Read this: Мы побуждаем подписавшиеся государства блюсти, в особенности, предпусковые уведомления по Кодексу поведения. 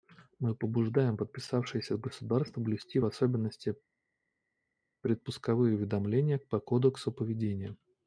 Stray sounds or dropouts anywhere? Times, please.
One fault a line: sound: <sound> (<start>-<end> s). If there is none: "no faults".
no faults